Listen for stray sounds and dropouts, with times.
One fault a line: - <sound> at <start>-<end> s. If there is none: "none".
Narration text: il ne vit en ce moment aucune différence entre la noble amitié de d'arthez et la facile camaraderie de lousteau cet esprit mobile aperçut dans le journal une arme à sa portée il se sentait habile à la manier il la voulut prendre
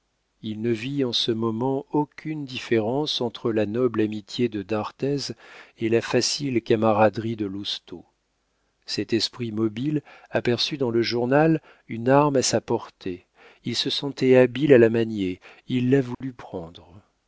- dropout at 16.1-16.2 s